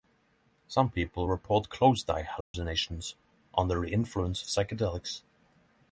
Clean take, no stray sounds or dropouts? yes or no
no